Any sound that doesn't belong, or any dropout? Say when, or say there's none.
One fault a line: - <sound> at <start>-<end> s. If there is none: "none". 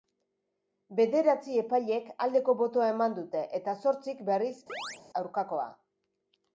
- chirp at 4.7-5.0 s